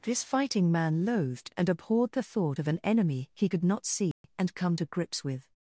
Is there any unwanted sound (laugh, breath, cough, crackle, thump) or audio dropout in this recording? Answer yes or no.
yes